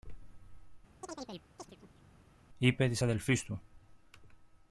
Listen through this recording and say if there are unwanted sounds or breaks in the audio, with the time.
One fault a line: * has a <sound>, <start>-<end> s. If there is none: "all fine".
* has a chirp, 1.0-2.1 s